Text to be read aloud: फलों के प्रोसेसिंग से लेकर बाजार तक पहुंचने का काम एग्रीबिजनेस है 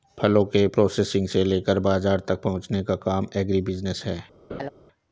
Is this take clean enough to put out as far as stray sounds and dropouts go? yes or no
no